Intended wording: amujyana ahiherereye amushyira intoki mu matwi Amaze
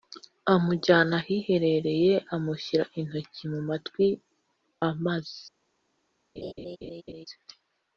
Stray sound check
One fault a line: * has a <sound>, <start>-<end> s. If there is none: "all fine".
* has a laugh, 6.4-7.3 s